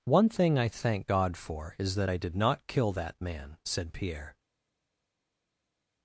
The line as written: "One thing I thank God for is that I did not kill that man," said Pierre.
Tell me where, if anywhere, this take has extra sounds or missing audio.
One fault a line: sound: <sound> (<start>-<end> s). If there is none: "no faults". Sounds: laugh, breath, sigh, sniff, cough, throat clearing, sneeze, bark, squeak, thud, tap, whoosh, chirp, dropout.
no faults